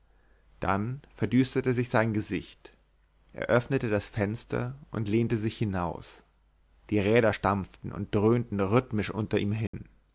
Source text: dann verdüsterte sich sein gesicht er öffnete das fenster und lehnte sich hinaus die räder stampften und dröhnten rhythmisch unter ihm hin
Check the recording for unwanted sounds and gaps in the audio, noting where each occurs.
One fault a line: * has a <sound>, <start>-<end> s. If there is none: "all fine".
* has a dropout, 9.7-9.7 s